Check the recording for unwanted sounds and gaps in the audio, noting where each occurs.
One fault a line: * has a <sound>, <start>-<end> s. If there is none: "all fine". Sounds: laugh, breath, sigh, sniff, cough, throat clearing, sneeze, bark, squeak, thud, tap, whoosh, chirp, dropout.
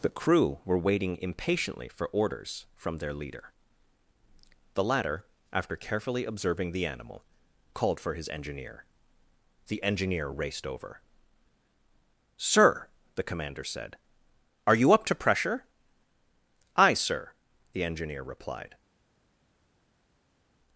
all fine